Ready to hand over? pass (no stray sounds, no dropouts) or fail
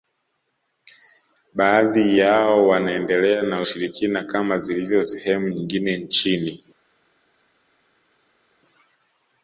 pass